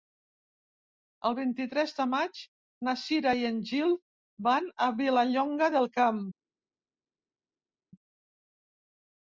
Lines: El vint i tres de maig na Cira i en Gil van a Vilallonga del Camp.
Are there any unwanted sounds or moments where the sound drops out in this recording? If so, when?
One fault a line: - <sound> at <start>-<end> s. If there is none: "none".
none